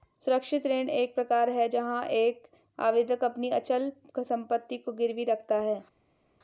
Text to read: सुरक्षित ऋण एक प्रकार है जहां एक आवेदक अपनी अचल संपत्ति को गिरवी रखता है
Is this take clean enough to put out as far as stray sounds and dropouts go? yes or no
yes